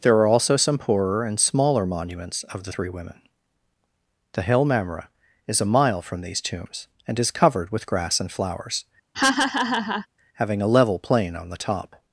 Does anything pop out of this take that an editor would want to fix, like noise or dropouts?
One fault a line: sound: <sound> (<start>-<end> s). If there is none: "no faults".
sound: laugh (9.1-10.1 s)